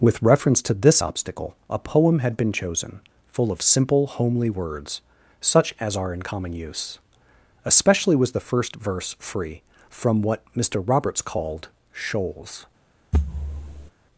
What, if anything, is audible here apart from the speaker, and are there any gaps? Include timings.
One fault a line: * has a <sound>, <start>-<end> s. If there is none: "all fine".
* has a thud, 13.1-13.9 s